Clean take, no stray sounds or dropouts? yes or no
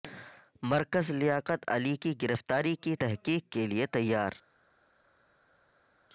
yes